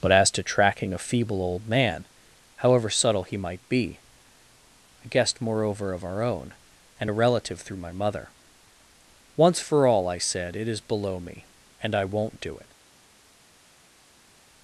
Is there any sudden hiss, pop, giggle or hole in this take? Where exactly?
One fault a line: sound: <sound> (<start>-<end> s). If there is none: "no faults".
no faults